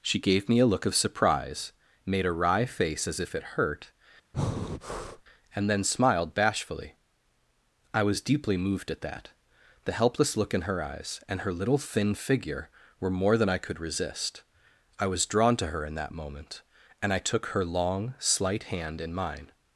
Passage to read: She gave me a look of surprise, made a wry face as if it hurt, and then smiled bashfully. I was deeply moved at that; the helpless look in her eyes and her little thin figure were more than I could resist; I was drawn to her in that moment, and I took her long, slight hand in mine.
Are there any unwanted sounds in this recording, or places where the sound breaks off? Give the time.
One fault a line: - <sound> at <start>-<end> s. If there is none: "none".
- breath at 4.3-5.2 s